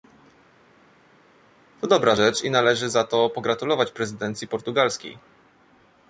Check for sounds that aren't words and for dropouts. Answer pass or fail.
pass